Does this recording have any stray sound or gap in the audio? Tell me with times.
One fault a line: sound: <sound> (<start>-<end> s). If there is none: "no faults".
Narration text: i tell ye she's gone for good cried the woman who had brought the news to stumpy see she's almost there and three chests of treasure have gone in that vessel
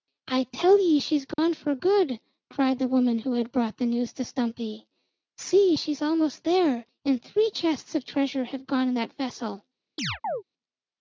sound: dropout (1.3-1.4 s)
sound: chirp (10.0-10.4 s)